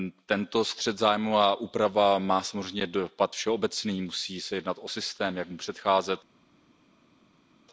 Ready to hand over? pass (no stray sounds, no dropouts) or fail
pass